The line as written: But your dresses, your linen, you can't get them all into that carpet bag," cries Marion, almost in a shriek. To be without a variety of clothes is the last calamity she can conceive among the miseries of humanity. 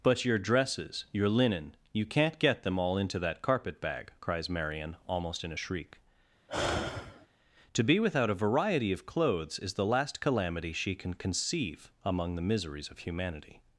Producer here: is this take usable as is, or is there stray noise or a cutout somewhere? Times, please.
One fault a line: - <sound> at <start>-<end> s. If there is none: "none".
- sigh at 6.5-7.3 s